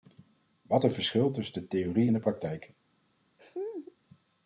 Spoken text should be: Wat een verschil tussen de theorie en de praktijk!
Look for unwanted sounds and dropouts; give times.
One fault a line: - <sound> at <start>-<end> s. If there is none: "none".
- laugh at 3.4-4.0 s